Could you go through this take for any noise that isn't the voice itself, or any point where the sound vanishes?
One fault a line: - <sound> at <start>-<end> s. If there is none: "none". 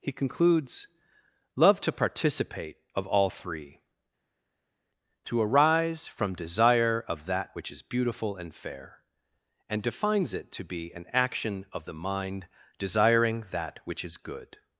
none